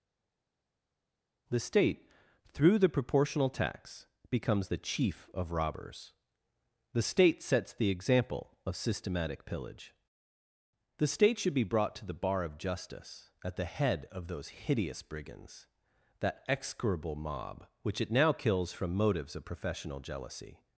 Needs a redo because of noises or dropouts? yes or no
no